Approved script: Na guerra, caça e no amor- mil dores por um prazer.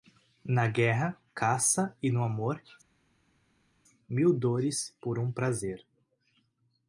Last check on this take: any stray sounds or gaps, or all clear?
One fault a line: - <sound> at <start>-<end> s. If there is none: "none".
none